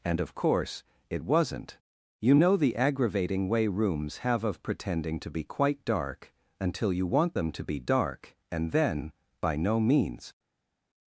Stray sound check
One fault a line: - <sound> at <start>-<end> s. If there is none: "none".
none